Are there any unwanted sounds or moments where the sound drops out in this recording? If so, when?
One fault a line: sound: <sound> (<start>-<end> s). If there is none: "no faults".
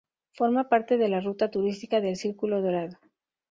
no faults